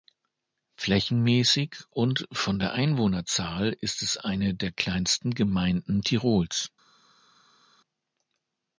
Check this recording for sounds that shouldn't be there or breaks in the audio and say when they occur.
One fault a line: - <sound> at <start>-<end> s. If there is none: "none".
none